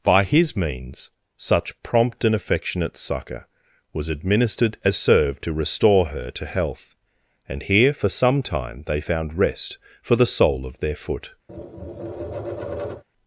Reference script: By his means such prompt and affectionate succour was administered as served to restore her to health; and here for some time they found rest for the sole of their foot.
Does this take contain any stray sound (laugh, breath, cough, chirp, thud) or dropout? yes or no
yes